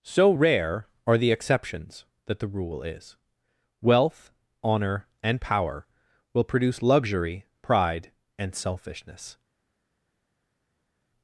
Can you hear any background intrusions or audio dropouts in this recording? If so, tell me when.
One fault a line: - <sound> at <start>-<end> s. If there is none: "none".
none